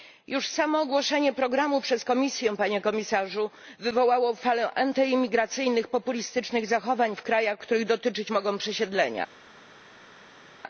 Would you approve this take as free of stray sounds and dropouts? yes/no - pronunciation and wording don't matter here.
yes